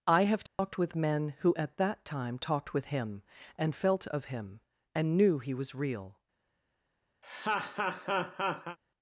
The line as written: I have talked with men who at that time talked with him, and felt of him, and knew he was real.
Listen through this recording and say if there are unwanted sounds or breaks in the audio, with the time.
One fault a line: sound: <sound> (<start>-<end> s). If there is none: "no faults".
sound: dropout (0.5-0.6 s)
sound: laugh (7.2-8.8 s)